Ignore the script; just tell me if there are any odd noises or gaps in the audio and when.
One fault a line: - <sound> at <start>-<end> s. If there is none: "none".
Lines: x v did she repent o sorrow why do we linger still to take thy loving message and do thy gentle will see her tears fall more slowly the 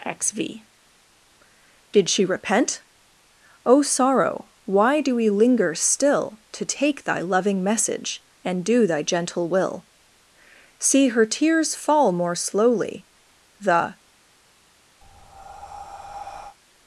- breath at 15.0-16.6 s